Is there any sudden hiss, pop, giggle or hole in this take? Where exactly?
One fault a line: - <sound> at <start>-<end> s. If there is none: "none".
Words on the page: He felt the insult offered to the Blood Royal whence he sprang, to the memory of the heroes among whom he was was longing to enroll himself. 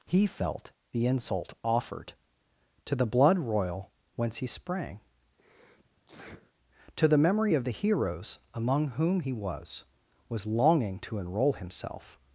- sneeze at 5.4-6.5 s